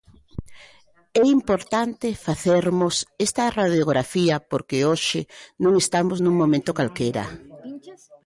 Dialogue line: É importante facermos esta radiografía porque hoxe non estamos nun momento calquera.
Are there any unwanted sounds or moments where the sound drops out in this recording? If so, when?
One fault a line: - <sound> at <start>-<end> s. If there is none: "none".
none